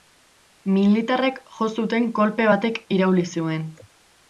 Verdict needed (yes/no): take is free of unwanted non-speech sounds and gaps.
yes